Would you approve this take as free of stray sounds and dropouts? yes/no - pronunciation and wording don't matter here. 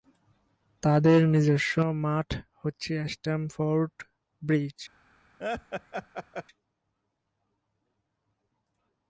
no